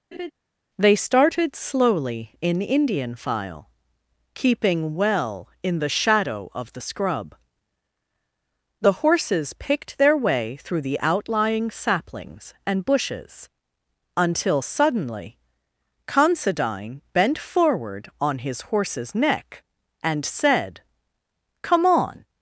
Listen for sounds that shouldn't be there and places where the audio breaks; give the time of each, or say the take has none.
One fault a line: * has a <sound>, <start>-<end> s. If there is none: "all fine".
* has a laugh, 0.1-0.3 s